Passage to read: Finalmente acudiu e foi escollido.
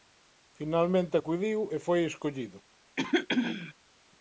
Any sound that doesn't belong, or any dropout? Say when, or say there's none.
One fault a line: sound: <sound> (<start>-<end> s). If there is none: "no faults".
sound: throat clearing (3.0-3.7 s)